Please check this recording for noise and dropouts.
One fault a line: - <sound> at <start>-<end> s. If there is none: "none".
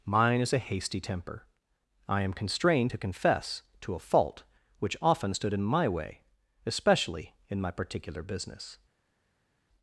none